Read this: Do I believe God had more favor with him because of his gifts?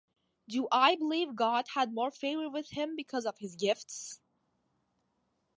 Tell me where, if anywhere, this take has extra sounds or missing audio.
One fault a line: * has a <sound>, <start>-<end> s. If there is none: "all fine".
all fine